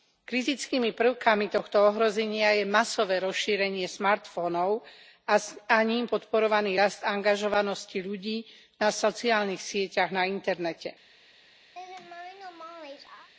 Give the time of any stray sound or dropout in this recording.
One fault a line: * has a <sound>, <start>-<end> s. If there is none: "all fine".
* has a laugh, 11.7-13.3 s